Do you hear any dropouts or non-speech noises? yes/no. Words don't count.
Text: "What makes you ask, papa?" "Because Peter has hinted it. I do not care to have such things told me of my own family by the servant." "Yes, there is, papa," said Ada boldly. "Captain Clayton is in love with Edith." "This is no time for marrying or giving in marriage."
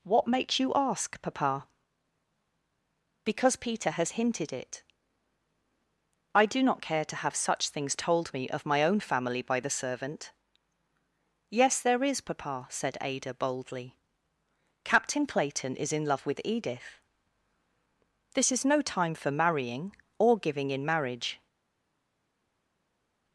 no